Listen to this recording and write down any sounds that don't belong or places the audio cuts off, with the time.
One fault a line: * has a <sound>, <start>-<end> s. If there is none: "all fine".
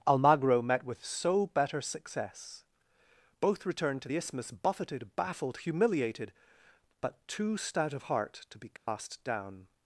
* has a dropout, 8.8-8.9 s